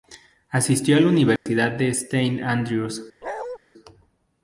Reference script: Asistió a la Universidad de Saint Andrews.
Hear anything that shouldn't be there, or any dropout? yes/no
yes